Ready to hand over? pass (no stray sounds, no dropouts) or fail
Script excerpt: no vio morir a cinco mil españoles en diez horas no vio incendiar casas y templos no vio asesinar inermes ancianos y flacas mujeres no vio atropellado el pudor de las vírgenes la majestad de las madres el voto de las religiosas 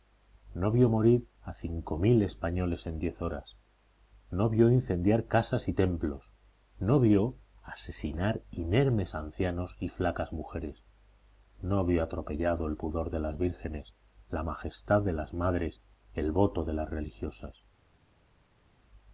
pass